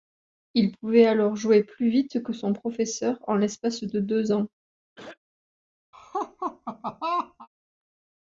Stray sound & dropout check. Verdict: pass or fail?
fail